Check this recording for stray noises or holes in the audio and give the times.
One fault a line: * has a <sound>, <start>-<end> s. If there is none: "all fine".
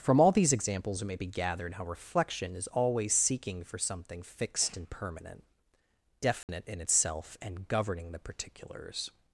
* has a dropout, 6.4-6.5 s